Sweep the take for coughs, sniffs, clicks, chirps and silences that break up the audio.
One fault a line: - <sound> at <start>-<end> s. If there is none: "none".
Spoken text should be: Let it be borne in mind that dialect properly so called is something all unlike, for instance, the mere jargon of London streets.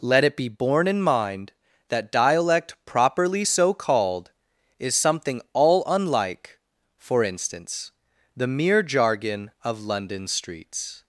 none